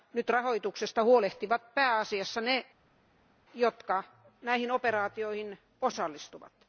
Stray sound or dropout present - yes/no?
no